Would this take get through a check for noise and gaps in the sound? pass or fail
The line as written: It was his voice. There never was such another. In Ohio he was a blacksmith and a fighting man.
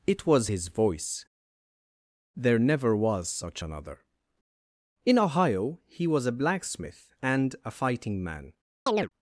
fail